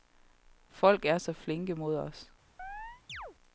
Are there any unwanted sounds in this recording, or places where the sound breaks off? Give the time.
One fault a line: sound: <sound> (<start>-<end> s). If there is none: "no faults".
sound: chirp (2.6-3.4 s)